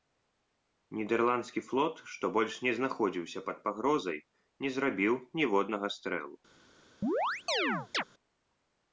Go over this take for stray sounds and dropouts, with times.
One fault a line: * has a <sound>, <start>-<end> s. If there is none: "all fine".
* has a chirp, 7.0-8.0 s